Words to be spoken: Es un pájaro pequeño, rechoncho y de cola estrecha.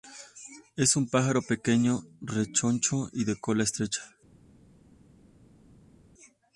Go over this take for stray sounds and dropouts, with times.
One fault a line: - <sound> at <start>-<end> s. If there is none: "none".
none